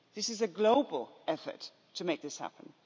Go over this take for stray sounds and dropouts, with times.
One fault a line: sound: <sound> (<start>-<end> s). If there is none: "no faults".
no faults